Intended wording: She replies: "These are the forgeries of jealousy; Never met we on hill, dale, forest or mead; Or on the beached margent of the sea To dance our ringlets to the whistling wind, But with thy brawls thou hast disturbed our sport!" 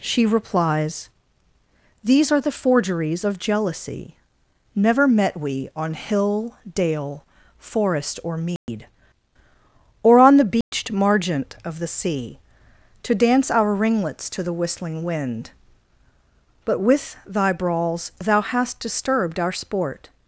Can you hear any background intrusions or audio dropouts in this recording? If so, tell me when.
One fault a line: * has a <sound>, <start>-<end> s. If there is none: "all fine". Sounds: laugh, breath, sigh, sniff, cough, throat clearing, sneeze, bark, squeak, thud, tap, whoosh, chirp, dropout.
* has a dropout, 8.6-8.7 s
* has a dropout, 10.6-10.7 s